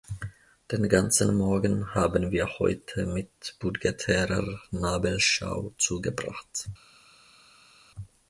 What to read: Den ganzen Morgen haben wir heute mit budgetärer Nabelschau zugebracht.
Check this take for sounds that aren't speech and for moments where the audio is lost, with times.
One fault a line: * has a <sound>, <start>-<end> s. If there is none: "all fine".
all fine